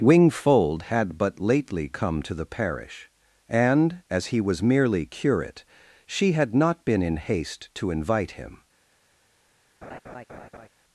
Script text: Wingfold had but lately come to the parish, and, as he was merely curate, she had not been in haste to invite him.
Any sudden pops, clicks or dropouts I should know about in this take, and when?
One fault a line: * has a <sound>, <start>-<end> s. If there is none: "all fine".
* has a laugh, 9.8-10.7 s